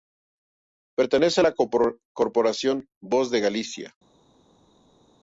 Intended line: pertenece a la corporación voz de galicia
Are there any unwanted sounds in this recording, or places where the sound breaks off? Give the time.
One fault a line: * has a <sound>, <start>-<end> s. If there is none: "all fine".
all fine